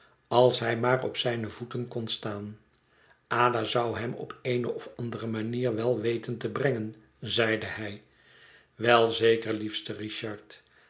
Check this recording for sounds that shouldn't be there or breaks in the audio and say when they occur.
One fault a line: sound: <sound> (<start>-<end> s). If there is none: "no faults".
no faults